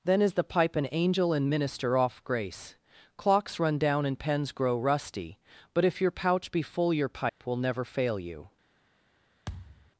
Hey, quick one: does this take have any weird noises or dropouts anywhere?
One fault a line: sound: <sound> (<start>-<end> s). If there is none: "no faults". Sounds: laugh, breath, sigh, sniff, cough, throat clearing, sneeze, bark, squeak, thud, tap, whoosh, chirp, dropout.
sound: dropout (7.3-7.4 s)
sound: thud (9.5-9.9 s)